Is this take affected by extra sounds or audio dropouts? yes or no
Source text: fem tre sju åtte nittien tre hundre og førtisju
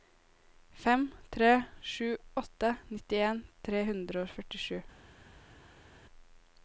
no